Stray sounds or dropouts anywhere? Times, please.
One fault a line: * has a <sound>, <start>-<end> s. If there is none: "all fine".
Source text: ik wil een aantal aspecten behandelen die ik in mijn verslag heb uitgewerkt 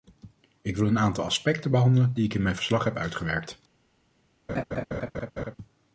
* has a laugh, 4.5-5.6 s